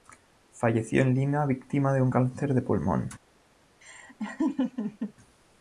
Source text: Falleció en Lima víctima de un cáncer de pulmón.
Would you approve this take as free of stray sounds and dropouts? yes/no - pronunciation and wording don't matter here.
no